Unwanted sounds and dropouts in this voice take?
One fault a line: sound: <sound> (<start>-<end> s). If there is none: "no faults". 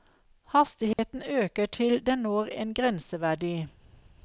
sound: dropout (0.9-1.0 s)